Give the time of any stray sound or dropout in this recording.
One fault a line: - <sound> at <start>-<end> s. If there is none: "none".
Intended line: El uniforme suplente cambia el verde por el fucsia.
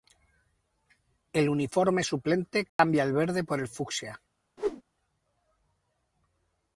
- dropout at 2.7-2.8 s
- whoosh at 4.6-4.8 s